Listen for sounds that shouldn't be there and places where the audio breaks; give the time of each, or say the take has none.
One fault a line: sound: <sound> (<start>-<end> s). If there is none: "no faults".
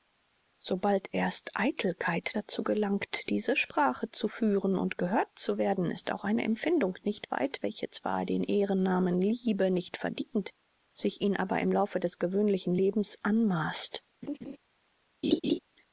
sound: laugh (14.2-14.6 s)
sound: laugh (15.2-15.6 s)